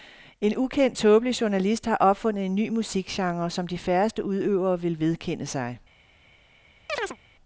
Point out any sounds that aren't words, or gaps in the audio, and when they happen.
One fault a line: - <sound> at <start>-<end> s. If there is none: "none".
- chirp at 6.9-7.2 s